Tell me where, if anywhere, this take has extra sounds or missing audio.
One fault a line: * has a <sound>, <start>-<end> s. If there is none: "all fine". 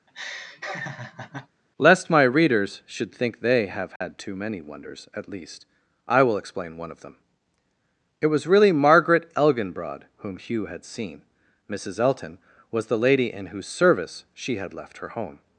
* has a laugh, 0.1-1.5 s
* has a dropout, 4.0-4.0 s